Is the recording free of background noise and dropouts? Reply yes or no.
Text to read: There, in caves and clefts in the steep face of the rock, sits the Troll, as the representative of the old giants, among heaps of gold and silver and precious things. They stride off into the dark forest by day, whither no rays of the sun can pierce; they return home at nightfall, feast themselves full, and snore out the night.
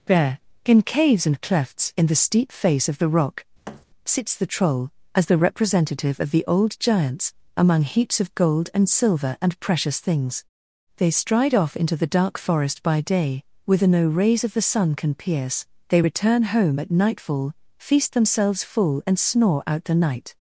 no